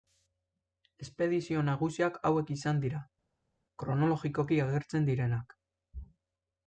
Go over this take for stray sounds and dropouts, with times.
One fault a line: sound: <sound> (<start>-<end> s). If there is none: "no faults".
no faults